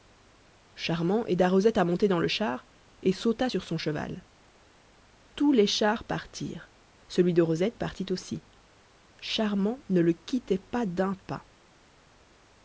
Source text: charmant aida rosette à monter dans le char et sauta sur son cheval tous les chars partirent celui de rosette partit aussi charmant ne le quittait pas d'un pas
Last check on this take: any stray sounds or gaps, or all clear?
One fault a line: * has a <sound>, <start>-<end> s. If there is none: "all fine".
all fine